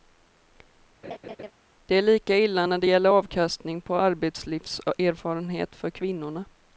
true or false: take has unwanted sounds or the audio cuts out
true